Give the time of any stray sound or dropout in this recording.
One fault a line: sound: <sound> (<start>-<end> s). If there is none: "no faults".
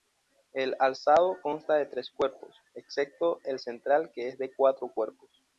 no faults